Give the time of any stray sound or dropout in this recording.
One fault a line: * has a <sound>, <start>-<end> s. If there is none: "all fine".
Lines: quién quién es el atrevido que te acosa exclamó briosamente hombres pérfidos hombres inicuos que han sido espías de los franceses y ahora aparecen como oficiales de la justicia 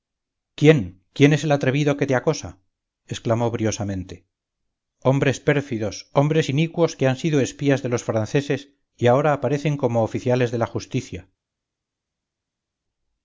all fine